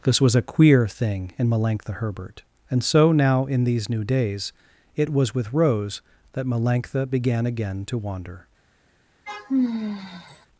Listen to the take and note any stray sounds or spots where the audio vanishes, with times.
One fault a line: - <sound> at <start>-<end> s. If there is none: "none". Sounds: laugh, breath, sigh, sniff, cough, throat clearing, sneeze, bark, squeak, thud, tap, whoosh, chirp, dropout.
- sigh at 9.3-10.5 s